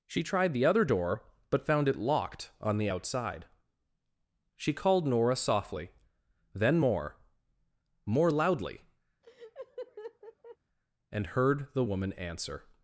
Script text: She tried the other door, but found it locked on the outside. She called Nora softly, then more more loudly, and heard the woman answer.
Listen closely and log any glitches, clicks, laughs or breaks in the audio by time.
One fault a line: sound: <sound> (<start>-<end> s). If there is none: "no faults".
sound: laugh (9.2-10.6 s)